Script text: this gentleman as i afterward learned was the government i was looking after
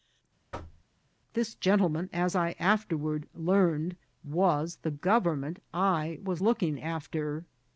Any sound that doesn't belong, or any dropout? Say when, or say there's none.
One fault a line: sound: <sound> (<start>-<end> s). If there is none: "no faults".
sound: thud (0.5-0.9 s)